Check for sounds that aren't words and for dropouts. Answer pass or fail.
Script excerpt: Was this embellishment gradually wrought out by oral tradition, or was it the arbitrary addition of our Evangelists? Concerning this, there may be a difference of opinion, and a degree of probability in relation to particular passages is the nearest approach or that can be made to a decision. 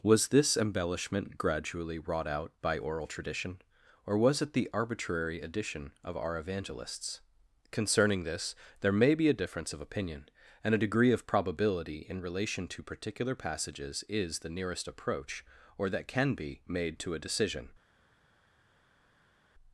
pass